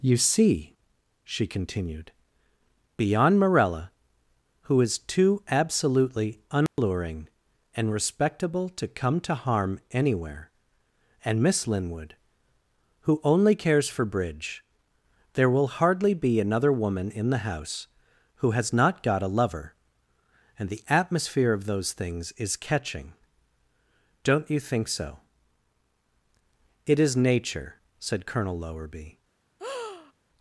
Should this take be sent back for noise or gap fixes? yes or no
yes